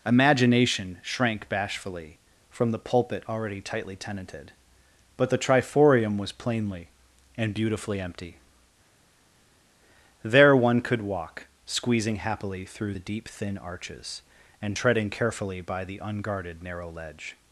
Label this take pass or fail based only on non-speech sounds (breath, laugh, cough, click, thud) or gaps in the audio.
pass